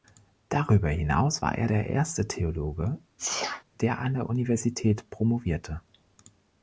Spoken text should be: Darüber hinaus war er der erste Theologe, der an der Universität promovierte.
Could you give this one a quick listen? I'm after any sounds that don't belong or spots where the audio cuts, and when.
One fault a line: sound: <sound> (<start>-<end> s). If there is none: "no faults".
sound: sneeze (3.2-3.6 s)